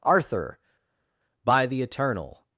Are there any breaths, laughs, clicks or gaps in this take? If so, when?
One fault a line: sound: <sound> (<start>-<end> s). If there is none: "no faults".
no faults